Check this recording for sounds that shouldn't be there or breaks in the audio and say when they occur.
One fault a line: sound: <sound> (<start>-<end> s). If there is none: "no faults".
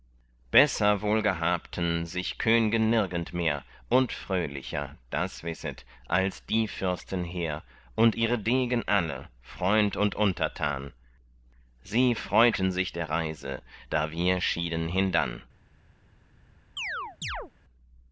sound: chirp (16.8-17.5 s)